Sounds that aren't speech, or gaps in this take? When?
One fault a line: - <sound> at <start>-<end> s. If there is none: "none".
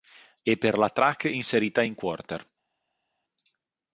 none